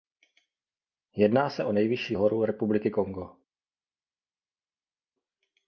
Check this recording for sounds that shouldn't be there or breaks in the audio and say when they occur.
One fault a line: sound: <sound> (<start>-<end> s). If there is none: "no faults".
no faults